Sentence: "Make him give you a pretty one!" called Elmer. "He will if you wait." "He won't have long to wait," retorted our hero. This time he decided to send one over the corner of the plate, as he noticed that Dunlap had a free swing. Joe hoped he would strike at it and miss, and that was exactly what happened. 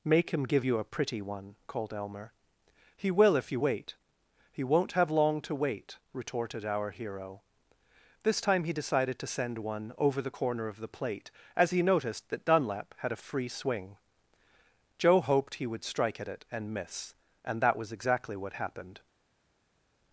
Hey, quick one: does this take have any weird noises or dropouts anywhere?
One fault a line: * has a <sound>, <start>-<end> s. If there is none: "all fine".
all fine